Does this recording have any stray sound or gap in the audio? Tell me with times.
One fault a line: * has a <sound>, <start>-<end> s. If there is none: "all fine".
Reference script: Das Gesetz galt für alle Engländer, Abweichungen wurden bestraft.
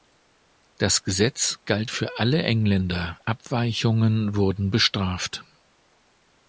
all fine